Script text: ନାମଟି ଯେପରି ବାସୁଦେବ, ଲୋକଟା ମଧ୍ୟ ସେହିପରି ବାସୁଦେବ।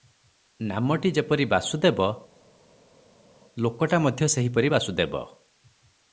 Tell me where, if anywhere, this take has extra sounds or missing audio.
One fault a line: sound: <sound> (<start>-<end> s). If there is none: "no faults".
no faults